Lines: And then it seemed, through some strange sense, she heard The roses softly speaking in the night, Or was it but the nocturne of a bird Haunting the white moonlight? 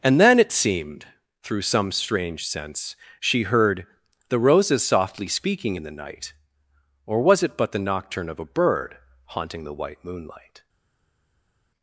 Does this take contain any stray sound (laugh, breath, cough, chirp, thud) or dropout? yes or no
no